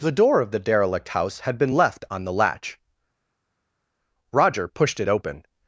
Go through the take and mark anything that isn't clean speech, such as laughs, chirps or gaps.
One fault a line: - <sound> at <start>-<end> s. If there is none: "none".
none